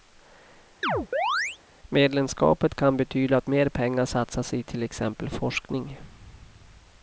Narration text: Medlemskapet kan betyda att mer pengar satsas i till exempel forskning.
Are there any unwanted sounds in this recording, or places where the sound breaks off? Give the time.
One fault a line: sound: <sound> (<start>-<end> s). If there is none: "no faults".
sound: chirp (0.8-1.6 s)